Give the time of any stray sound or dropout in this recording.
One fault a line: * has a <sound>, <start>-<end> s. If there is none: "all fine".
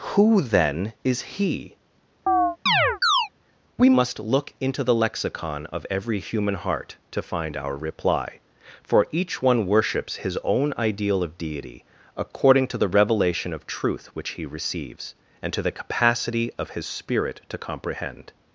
* has a chirp, 2.3-3.3 s